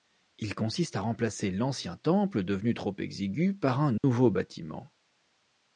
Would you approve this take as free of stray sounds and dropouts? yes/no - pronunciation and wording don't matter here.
no